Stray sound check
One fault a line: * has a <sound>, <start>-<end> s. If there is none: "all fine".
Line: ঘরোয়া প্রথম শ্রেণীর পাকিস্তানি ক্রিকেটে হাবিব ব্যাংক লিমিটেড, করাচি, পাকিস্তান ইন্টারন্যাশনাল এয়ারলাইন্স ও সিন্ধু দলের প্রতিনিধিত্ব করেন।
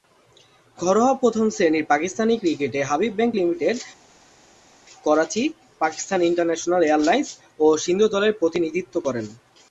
all fine